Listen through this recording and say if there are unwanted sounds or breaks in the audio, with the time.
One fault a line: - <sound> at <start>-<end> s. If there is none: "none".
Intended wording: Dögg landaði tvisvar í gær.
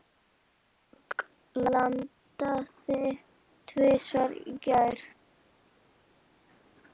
none